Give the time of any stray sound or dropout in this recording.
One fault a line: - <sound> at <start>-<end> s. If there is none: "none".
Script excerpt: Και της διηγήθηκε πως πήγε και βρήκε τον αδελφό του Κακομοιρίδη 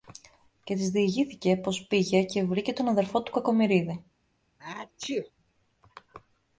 - sneeze at 4.6-5.3 s